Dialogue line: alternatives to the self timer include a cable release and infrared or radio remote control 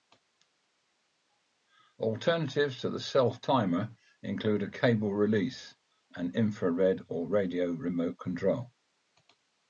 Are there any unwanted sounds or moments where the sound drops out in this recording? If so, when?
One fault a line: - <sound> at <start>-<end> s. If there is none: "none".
none